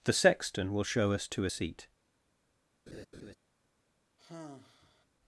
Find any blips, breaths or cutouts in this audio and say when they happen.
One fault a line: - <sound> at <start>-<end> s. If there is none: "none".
- laugh at 2.9-3.4 s
- sigh at 4.2-5.1 s